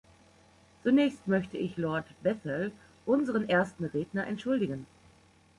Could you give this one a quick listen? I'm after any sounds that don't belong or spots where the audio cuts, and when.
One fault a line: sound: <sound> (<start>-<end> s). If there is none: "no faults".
no faults